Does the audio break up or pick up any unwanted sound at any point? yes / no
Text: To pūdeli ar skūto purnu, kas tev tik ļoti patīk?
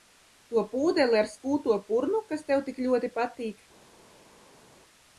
no